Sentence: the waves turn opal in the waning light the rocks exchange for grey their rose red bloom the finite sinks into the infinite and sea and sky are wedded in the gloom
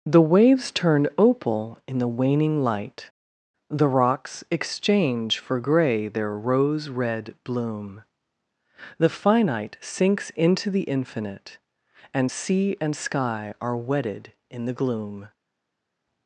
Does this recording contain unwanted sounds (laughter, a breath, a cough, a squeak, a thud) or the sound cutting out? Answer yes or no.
no